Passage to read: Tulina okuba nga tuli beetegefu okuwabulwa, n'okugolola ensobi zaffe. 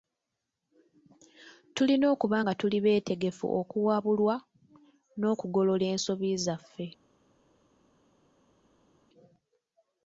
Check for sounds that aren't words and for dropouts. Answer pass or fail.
pass